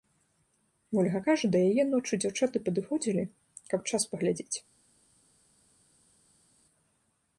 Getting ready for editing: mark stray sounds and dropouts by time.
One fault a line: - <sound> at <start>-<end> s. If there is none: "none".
none